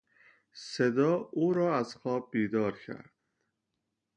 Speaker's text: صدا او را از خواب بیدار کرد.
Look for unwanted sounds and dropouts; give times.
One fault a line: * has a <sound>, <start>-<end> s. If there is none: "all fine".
all fine